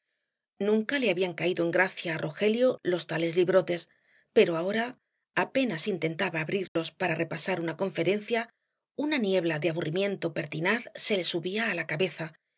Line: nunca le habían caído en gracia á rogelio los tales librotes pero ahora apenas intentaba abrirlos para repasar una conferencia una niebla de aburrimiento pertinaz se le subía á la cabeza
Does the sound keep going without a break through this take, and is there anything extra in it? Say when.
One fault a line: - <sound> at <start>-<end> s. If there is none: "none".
- dropout at 6.7-6.8 s